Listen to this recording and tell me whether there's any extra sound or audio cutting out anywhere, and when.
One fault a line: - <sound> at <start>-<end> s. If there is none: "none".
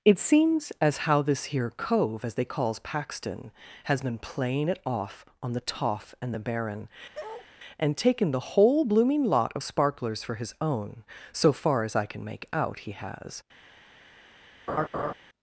- bark at 7.1-7.5 s
- laugh at 14.7-15.1 s